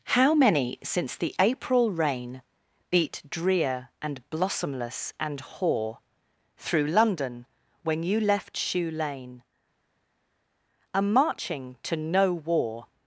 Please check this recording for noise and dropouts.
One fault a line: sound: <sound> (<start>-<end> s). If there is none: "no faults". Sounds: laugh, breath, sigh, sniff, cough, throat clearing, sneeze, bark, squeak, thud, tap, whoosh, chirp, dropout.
no faults